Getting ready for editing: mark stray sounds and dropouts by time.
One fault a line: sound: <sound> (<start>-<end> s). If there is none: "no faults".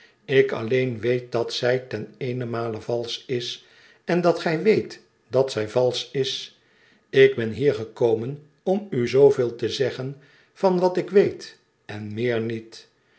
no faults